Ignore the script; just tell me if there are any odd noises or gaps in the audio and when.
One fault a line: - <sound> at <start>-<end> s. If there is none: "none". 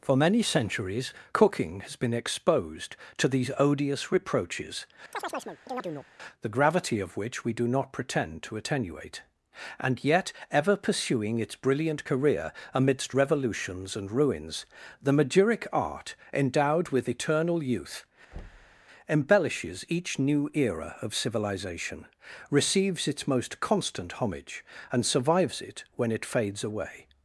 - chirp at 5.1-6.1 s
- thud at 18.3-18.8 s